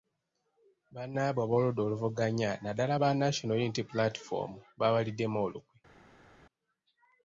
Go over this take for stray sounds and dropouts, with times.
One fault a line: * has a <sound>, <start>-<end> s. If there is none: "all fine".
all fine